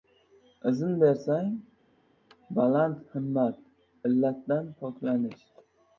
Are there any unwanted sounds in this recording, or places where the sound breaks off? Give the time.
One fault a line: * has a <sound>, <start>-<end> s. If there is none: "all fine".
all fine